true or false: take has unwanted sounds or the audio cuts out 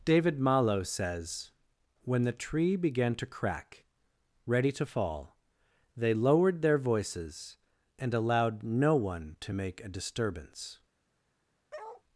true